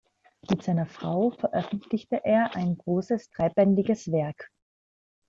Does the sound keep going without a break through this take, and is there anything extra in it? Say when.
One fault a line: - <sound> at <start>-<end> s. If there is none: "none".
none